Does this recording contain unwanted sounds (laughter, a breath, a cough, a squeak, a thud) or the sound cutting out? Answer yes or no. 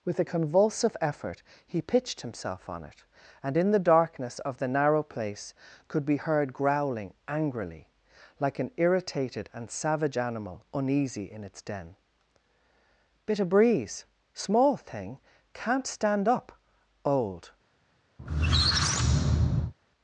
yes